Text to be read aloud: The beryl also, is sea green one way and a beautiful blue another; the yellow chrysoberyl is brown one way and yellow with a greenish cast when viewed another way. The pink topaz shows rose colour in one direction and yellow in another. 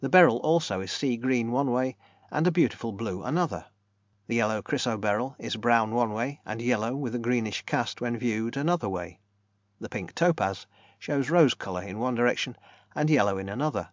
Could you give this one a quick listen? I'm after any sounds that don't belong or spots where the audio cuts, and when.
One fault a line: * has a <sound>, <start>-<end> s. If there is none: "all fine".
all fine